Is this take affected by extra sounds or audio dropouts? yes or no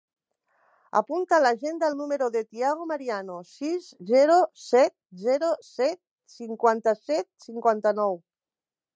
no